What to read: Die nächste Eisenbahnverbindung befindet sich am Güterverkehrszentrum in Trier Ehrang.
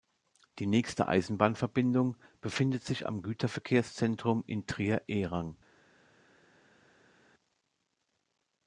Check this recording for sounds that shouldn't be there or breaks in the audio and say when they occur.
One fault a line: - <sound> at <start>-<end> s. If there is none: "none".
none